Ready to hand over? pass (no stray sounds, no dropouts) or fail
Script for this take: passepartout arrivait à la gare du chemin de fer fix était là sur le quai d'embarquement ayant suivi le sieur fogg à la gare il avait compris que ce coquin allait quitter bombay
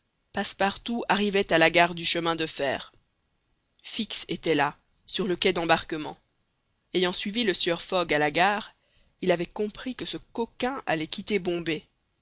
pass